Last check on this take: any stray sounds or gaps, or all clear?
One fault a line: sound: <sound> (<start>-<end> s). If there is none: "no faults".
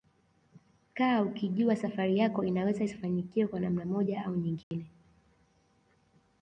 sound: dropout (4.6-4.7 s)